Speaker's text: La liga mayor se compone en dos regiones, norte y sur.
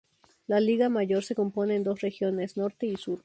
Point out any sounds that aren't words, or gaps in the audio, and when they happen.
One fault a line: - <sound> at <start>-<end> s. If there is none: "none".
none